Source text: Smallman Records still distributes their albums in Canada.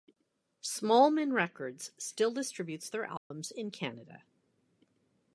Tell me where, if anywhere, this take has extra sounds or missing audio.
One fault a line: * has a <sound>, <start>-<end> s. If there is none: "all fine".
* has a dropout, 3.2-3.3 s